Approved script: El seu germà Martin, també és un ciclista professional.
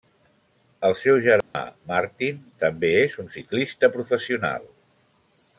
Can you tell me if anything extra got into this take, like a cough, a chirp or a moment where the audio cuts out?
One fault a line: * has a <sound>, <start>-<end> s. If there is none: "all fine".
* has a dropout, 1.4-1.5 s